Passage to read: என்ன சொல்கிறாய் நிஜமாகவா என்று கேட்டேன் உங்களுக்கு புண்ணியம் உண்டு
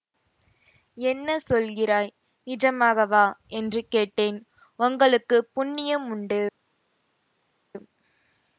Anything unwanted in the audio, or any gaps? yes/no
no